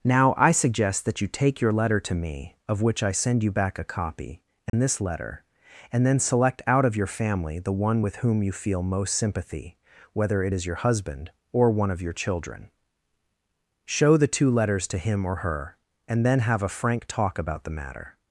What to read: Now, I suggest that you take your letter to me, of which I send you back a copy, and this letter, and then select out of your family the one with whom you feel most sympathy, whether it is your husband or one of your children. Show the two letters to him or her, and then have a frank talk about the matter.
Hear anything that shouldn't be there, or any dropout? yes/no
yes